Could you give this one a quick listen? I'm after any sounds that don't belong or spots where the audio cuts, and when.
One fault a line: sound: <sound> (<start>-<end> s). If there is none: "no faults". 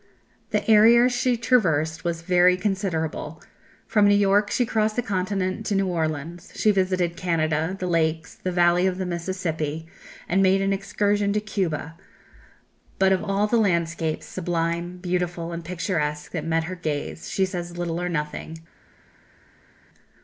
no faults